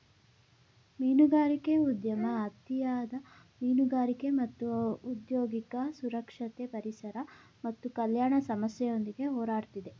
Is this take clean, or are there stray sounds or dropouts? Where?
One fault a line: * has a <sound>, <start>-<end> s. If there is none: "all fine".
all fine